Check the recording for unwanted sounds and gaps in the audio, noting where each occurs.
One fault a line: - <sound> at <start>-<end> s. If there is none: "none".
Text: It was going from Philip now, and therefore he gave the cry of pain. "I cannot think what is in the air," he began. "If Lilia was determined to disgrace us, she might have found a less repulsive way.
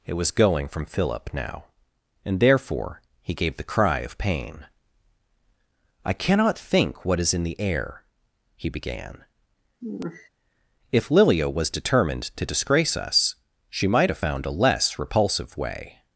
- sigh at 9.8-10.3 s